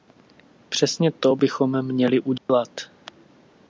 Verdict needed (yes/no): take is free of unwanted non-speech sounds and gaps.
no